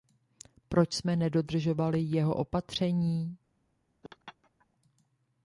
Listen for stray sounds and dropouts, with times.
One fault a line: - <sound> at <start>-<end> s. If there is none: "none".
- laugh at 4.0-4.7 s